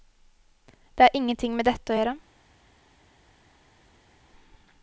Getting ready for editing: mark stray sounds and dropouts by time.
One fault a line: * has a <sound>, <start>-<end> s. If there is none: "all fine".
all fine